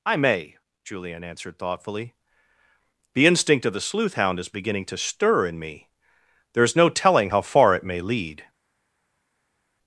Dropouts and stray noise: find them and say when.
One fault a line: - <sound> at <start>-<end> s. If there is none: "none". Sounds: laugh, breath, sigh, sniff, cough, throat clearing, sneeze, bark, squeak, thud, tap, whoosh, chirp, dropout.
none